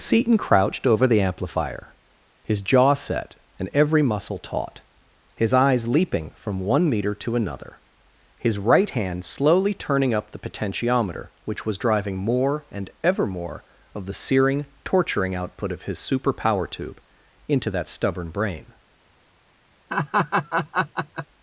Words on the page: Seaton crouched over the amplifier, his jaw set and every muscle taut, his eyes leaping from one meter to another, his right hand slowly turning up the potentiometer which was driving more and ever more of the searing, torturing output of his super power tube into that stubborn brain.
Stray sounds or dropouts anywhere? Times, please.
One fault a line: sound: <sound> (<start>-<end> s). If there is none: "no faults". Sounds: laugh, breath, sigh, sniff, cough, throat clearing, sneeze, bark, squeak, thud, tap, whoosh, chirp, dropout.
sound: laugh (19.9-21.3 s)